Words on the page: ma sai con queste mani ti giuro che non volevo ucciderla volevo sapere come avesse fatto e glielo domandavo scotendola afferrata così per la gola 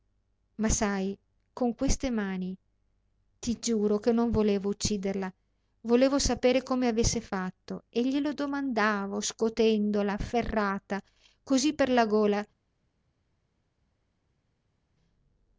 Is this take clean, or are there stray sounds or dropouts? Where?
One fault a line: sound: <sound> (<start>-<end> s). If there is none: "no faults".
no faults